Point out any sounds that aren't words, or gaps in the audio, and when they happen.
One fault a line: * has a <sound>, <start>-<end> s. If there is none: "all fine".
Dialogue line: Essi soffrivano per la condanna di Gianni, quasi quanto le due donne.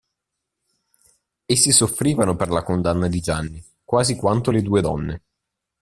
all fine